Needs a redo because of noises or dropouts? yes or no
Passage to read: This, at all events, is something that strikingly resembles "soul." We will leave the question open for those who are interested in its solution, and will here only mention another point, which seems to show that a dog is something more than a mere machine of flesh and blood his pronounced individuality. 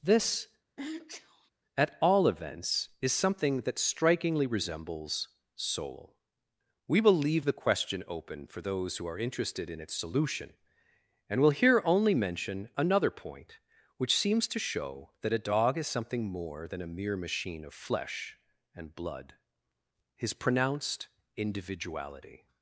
yes